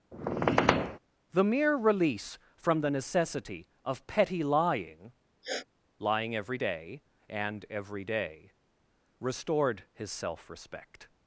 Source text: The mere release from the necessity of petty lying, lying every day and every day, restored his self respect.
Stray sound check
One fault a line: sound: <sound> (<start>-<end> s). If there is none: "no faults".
sound: squeak (0.1-1.0 s)
sound: sniff (5.4-5.7 s)